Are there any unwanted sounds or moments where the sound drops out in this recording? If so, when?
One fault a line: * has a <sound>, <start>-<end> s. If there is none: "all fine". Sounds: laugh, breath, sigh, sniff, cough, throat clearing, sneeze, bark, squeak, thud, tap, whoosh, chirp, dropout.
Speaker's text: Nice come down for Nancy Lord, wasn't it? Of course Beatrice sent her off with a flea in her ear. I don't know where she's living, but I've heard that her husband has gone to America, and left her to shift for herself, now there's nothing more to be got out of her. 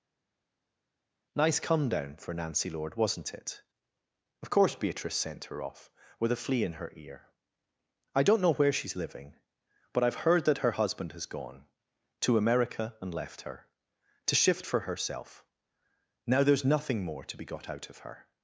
all fine